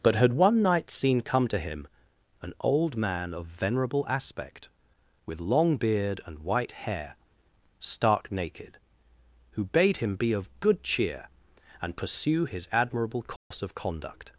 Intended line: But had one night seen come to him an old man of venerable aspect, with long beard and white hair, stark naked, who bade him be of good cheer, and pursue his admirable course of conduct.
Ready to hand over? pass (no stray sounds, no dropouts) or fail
fail